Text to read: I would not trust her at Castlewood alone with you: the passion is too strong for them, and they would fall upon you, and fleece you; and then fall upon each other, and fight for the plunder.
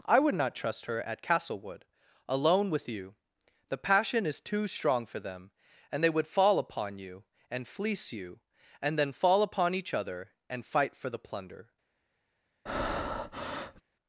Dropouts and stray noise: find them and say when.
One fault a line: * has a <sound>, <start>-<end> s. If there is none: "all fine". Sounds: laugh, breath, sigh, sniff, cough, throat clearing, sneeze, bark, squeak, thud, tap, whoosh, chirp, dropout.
* has a breath, 12.7-13.8 s